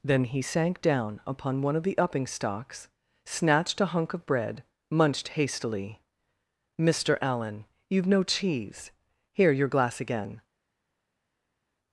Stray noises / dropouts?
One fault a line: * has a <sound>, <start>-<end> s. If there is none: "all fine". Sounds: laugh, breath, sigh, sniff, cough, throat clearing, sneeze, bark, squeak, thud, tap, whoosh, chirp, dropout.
all fine